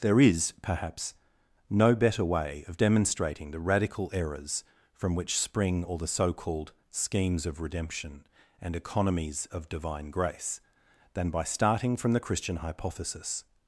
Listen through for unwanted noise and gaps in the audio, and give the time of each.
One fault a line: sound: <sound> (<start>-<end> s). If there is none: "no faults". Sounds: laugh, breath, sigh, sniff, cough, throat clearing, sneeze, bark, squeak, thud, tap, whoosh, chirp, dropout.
no faults